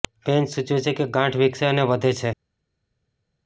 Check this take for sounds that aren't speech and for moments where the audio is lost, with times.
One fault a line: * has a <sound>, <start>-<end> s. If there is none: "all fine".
all fine